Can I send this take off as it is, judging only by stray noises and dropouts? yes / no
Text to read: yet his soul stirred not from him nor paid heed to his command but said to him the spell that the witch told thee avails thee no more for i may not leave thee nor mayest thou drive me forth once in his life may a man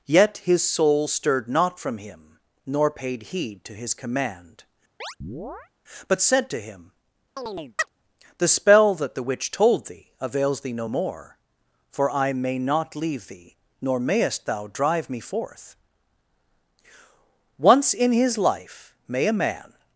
no